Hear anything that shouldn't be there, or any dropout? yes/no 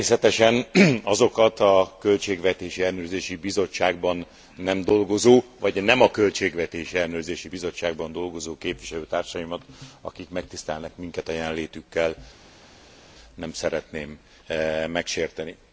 no